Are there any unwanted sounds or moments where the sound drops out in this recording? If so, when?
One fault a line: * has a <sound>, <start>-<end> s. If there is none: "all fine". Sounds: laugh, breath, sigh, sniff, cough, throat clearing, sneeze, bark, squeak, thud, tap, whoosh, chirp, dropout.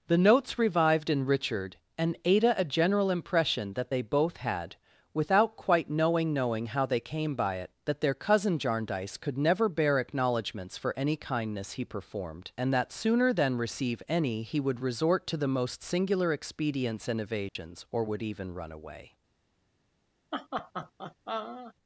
* has a dropout, 17.5-17.6 s
* has a laugh, 20.3-21.7 s